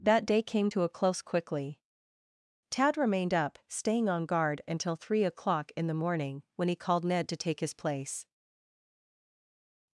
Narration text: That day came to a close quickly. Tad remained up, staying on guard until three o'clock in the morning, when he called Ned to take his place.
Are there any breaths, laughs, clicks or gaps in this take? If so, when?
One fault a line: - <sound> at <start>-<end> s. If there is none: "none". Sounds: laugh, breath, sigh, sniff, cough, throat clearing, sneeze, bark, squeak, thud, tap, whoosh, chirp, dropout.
none